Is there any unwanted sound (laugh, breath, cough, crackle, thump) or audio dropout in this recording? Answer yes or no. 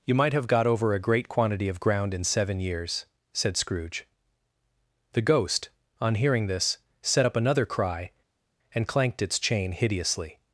no